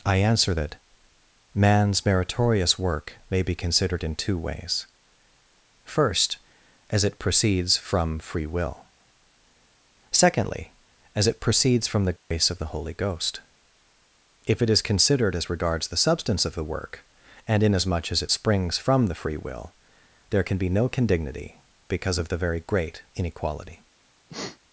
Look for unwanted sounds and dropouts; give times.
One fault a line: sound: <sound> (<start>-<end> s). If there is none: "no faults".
sound: dropout (12.2-12.3 s)
sound: sneeze (24.3-24.6 s)